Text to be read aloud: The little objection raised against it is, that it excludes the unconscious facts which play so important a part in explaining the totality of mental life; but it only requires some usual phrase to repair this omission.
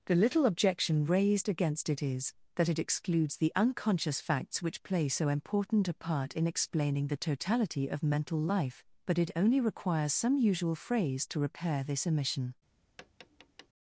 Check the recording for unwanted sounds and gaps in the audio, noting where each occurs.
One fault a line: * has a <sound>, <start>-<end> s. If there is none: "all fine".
* has a tap, 13.0-13.7 s